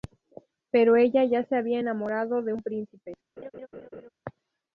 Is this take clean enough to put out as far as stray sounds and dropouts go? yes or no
no